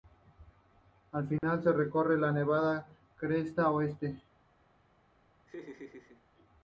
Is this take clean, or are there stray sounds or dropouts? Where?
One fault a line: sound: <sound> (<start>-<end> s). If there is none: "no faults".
sound: dropout (1.4-1.4 s)
sound: laugh (5.5-6.2 s)